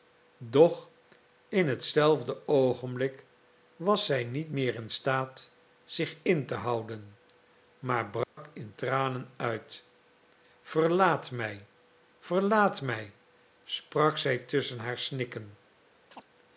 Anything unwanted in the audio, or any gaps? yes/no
yes